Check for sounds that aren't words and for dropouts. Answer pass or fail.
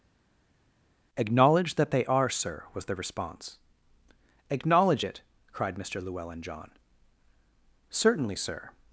pass